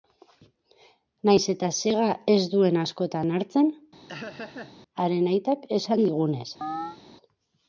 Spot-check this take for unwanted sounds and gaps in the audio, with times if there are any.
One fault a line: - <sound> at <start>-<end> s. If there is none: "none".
- laugh at 4.1-4.7 s
- chirp at 6.6-7.0 s